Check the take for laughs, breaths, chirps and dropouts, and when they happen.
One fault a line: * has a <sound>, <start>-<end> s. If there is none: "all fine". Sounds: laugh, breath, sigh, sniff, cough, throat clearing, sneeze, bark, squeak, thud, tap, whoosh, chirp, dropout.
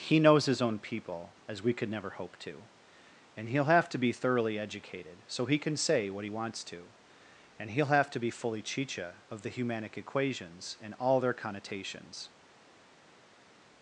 all fine